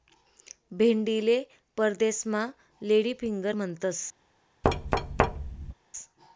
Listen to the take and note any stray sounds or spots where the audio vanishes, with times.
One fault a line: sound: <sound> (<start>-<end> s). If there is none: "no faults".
sound: thud (4.6-5.7 s)